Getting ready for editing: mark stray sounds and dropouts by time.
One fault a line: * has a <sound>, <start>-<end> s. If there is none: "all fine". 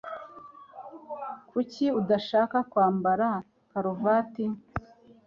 all fine